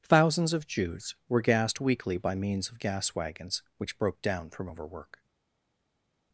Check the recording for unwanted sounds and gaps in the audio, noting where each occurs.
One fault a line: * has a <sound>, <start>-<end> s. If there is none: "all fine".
all fine